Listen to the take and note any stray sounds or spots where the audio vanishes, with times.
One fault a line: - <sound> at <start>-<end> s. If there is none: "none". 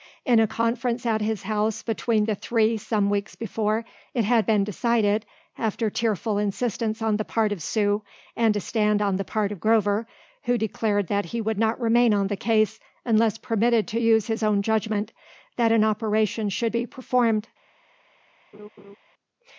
- laugh at 18.5-19.0 s